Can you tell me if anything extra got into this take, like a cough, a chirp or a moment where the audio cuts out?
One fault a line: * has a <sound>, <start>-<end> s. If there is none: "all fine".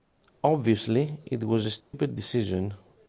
* has a dropout, 1.8-1.9 s